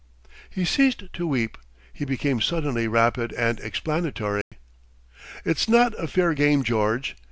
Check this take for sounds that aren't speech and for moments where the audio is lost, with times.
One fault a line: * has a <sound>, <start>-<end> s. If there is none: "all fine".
* has a dropout, 4.4-4.5 s